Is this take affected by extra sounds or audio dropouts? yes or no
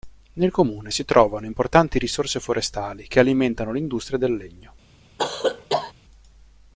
yes